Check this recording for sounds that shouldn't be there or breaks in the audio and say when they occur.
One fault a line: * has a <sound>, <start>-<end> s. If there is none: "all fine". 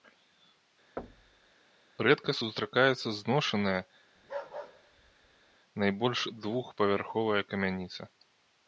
* has a thud, 1.0-1.5 s
* has a bark, 4.2-5.6 s